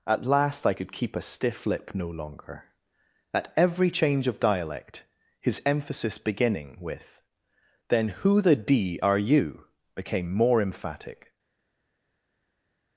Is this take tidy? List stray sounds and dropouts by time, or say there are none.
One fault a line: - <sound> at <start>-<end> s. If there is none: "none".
none